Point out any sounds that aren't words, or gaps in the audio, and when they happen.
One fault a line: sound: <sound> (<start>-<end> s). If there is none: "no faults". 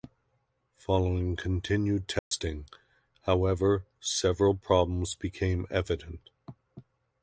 sound: dropout (2.2-2.3 s)